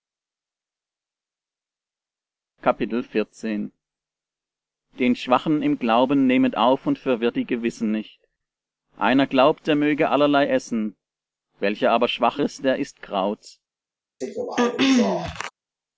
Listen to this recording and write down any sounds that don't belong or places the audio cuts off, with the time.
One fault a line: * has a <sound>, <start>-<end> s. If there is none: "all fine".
* has a throat clearing, 14.2-15.5 s